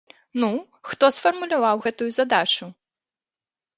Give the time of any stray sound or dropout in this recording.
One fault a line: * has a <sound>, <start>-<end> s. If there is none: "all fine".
all fine